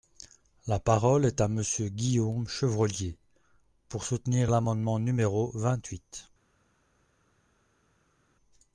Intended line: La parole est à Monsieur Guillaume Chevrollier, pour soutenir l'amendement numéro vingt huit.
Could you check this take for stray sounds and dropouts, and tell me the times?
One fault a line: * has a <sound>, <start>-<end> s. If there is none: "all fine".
all fine